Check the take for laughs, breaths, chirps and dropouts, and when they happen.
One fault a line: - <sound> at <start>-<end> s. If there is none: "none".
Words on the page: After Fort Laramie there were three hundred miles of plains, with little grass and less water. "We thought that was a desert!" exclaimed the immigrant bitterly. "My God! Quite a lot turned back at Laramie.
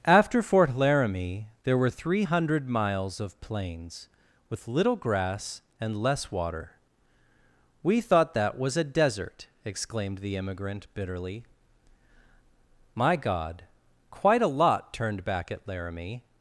none